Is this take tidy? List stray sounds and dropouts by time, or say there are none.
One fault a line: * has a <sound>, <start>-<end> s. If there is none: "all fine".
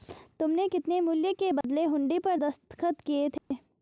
* has a dropout, 1.6-1.6 s
* has a dropout, 3.4-3.5 s